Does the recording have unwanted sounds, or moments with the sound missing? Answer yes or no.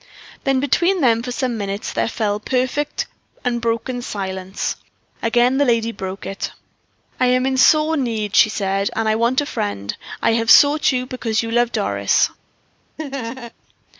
yes